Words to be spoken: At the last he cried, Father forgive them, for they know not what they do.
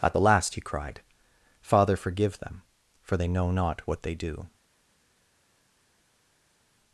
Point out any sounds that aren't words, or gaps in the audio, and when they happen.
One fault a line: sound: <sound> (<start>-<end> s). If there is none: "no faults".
no faults